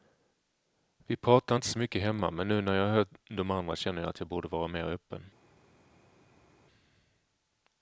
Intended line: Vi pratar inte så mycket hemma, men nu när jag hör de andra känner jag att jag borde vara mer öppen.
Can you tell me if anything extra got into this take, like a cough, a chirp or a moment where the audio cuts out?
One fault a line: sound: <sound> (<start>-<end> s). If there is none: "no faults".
no faults